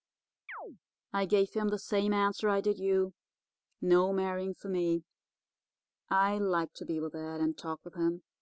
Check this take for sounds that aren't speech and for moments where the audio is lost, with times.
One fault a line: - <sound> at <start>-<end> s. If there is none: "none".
- chirp at 0.5-0.8 s